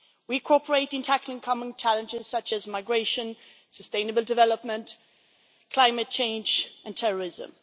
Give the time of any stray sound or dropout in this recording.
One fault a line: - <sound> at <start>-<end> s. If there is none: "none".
none